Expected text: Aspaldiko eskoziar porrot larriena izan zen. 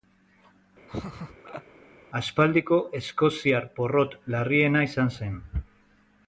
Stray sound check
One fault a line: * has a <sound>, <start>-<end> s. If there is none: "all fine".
* has a laugh, 0.9-1.6 s